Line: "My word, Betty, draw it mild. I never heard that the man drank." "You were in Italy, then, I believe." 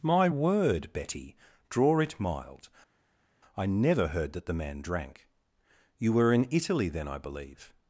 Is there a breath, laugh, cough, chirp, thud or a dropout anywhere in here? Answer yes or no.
no